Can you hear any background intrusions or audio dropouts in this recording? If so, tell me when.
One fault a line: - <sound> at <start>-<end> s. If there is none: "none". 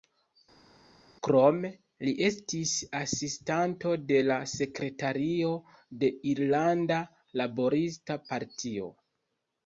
none